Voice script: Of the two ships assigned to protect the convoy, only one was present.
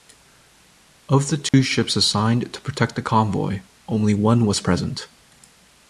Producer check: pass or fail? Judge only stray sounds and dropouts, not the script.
fail